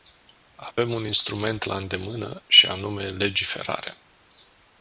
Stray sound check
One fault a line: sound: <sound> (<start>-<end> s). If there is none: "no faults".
sound: dropout (0.7-0.8 s)